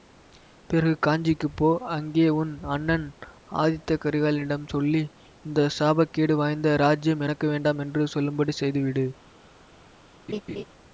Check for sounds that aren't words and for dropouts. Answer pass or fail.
fail